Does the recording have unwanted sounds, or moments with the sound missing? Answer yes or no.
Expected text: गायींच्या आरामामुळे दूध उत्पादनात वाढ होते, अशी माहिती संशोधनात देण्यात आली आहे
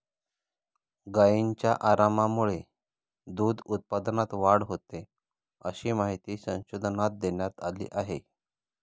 no